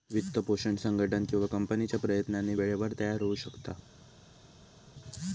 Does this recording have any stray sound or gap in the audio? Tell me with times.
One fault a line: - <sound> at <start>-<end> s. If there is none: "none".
none